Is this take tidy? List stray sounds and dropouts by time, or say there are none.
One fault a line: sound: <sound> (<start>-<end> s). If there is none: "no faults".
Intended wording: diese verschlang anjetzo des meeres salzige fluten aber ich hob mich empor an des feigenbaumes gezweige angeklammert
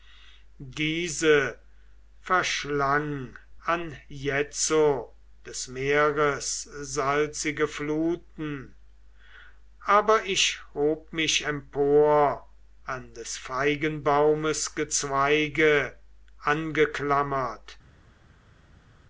no faults